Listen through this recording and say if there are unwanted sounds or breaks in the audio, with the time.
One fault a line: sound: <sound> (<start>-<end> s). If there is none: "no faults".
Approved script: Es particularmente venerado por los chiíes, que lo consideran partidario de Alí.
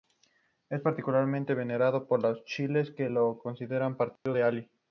sound: dropout (4.2-4.3 s)